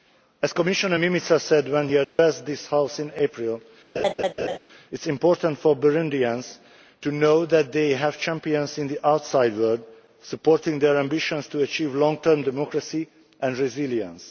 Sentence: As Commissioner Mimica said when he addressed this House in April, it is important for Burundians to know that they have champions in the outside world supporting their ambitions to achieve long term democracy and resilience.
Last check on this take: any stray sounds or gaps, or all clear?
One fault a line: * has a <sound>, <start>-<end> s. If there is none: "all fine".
* has a dropout, 2.0-2.2 s
* has a laugh, 3.9-4.6 s